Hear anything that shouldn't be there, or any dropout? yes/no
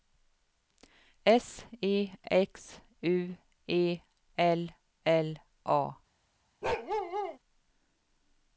yes